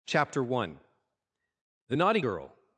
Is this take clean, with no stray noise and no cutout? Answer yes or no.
yes